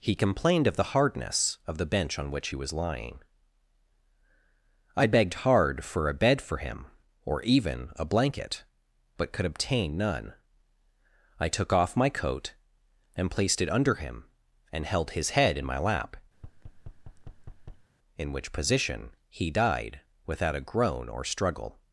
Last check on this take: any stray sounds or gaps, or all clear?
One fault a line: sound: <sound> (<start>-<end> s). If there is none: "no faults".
sound: thud (16.3-17.9 s)